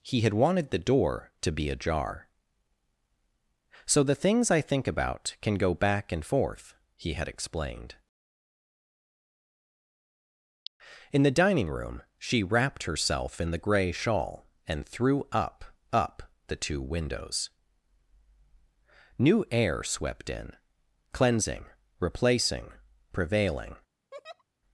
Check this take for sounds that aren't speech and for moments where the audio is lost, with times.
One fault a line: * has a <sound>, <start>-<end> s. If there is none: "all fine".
* has a laugh, 24.1-24.4 s